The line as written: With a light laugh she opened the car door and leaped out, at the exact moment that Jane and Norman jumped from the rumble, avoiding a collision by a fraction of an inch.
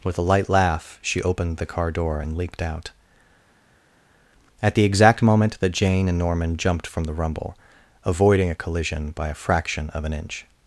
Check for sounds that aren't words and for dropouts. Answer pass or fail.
pass